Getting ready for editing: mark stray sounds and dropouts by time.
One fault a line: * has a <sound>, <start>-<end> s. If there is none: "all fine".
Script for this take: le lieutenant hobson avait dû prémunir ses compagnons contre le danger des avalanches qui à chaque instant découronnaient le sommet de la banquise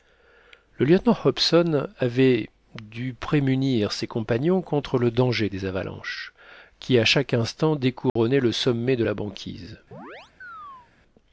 * has a dropout, 8.1-8.2 s
* has a chirp, 9.9-10.9 s